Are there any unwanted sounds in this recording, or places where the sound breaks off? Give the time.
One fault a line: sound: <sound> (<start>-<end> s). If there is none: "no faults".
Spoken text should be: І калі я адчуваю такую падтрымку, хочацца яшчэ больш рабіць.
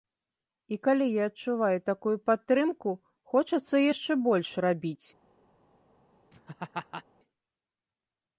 sound: laugh (6.3-7.0 s)